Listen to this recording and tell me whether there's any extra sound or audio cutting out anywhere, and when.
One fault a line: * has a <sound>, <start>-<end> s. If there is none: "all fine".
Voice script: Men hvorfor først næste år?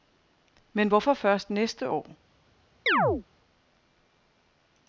* has a chirp, 2.9-3.2 s